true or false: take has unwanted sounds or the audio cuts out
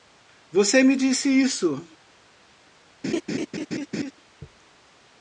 true